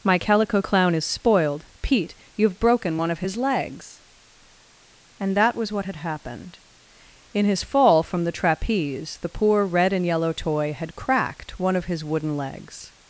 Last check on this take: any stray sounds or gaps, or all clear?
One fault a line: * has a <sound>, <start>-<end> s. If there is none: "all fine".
all fine